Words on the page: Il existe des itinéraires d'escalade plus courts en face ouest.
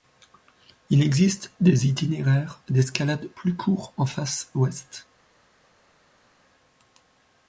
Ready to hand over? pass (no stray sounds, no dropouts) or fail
pass